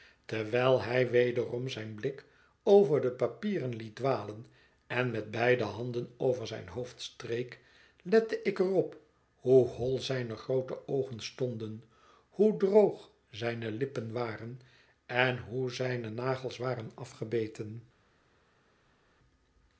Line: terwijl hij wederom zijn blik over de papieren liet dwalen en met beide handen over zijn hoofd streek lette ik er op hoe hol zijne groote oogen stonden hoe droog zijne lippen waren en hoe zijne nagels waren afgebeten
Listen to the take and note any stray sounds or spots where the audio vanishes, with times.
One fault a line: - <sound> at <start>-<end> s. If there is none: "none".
none